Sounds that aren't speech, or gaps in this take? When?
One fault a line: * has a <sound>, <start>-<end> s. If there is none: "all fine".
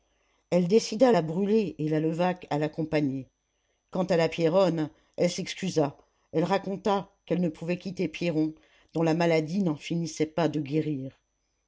all fine